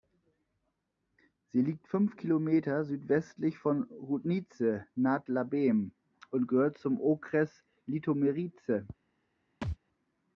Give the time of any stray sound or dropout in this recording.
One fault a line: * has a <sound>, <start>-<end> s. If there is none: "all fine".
* has a thud, 9.6-9.8 s